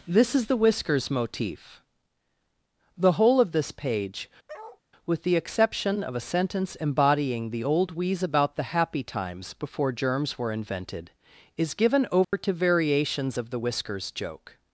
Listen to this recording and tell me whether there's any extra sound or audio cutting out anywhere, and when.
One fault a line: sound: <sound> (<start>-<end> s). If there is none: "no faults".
sound: bark (4.5-4.8 s)
sound: dropout (12.2-12.3 s)